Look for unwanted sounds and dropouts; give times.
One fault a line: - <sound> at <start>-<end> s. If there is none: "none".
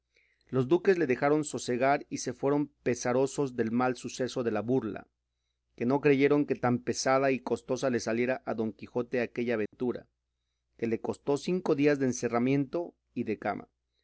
- dropout at 9.7-9.7 s